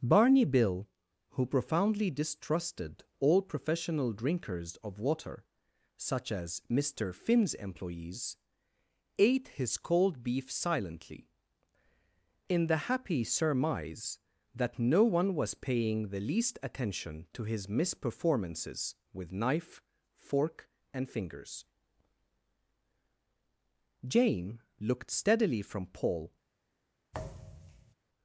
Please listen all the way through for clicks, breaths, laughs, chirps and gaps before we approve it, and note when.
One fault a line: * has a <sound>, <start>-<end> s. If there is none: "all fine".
* has a thud, 27.1-27.9 s